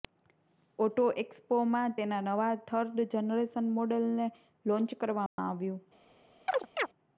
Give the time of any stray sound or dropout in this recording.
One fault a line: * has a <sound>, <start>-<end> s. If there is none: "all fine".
* has a dropout, 5.3-5.4 s
* has a chirp, 6.5-6.9 s